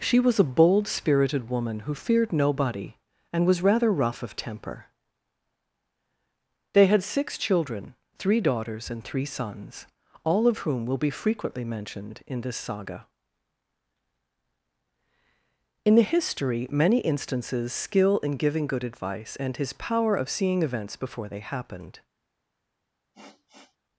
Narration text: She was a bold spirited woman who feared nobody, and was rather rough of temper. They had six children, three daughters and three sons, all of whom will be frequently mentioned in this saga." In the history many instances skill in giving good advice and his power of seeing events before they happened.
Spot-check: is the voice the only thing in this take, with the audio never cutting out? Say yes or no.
no